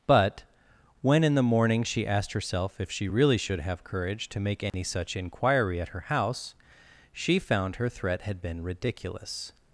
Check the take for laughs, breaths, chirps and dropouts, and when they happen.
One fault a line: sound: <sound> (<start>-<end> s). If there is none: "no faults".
sound: dropout (4.7-4.7 s)